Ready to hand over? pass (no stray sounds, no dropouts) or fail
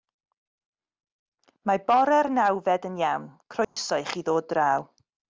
fail